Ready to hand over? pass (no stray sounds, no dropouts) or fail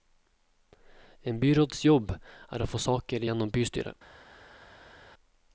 pass